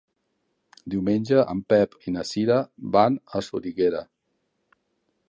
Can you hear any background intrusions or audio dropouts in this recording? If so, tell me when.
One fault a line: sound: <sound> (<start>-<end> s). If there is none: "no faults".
no faults